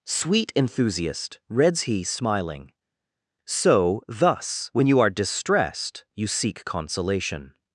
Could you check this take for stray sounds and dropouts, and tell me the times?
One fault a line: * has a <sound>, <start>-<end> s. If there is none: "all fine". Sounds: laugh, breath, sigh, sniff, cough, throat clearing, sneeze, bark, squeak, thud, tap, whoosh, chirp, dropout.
all fine